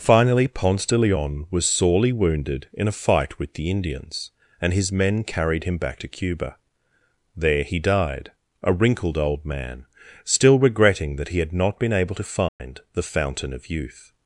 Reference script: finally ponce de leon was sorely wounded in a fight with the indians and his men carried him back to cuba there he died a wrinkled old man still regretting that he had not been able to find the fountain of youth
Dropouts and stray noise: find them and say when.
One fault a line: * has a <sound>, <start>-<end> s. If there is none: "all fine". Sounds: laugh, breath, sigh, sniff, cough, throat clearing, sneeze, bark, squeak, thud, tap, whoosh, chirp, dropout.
* has a dropout, 12.5-12.6 s